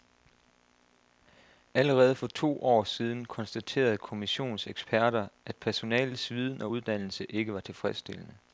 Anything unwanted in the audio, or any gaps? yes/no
no